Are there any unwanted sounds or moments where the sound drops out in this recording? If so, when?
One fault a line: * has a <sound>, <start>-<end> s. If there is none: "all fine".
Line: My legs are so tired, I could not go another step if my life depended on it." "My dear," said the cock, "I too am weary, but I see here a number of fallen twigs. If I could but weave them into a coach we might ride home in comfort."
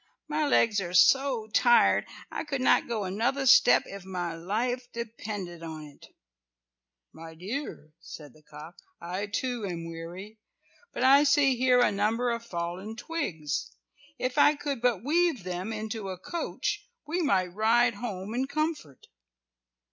all fine